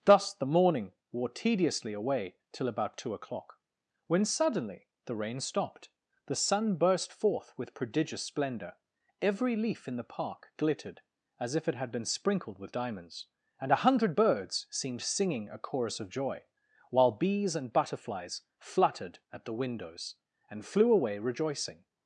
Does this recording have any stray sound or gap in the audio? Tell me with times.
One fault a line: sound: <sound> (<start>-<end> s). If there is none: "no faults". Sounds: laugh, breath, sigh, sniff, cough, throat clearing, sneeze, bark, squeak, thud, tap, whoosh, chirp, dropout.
no faults